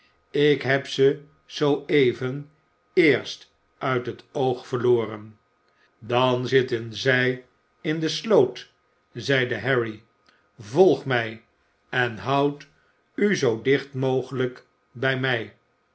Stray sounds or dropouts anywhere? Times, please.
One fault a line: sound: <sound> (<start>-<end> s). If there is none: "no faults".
no faults